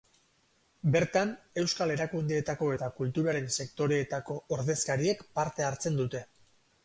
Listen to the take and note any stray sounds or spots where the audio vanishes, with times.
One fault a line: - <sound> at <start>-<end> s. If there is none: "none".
none